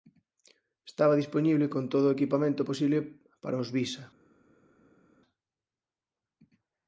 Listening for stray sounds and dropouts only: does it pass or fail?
pass